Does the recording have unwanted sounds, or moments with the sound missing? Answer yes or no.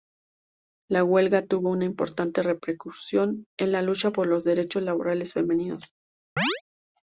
yes